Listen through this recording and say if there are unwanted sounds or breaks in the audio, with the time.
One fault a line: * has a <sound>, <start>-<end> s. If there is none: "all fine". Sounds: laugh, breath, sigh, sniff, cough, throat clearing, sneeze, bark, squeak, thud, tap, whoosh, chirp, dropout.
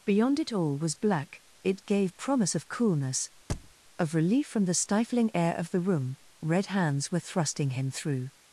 * has a thud, 3.5-3.7 s